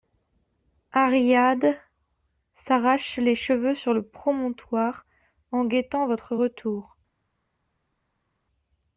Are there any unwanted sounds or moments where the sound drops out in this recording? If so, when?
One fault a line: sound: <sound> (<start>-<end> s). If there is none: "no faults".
no faults